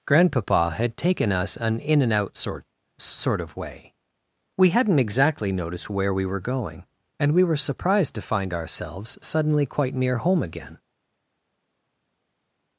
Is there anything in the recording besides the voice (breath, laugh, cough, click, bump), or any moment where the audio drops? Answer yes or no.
no